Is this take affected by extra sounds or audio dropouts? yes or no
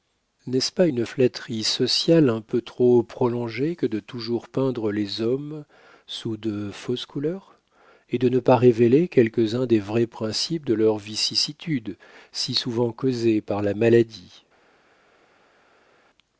no